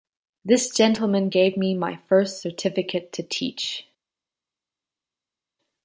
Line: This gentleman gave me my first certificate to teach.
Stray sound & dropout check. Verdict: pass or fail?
pass